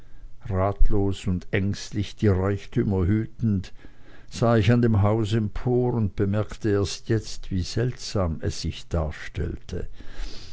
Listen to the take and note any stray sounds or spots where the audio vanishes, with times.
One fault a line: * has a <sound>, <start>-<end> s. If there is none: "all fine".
all fine